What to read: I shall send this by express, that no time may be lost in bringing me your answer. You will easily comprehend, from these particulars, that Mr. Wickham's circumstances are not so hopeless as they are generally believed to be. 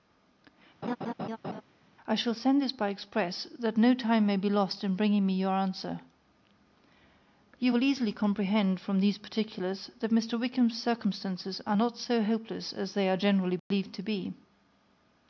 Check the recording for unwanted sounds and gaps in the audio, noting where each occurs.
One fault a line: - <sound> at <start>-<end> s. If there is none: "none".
- laugh at 0.8-1.6 s
- dropout at 13.6-13.7 s